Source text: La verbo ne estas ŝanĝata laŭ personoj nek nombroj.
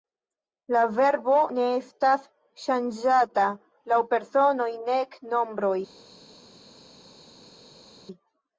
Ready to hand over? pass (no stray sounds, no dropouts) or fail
pass